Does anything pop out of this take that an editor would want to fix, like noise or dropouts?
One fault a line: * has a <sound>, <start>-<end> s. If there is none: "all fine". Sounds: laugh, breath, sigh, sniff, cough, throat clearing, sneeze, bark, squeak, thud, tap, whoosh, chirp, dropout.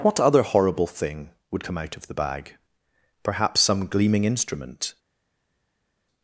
all fine